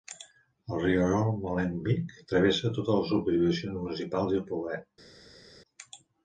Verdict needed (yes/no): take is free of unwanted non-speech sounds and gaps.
yes